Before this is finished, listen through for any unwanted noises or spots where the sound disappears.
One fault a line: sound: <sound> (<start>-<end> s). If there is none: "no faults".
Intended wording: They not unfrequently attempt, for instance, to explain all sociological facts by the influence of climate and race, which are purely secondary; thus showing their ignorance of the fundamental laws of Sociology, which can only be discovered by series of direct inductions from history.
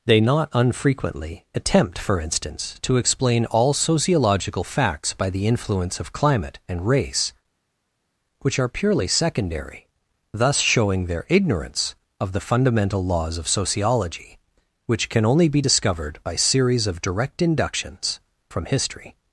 no faults